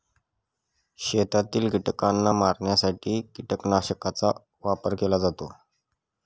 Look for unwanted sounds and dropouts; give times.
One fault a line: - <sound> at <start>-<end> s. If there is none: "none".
none